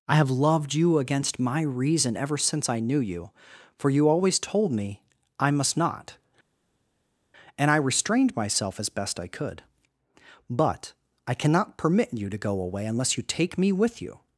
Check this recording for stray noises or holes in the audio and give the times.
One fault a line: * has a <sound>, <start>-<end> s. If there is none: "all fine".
all fine